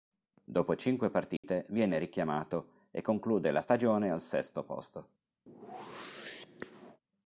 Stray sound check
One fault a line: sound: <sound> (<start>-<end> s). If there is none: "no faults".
sound: dropout (1.4-1.4 s)
sound: whoosh (5.5-7.0 s)